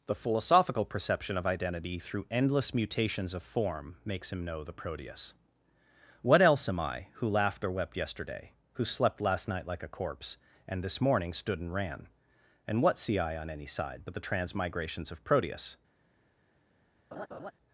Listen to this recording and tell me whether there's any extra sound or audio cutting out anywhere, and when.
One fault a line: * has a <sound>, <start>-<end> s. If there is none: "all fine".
* has a laugh, 17.1-17.5 s